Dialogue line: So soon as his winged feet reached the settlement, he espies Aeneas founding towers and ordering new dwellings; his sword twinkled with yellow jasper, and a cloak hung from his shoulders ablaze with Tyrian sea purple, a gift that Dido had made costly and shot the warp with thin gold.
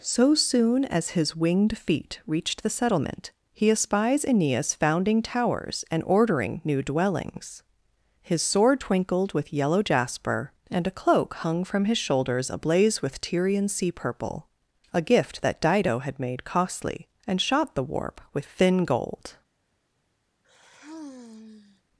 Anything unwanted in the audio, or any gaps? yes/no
yes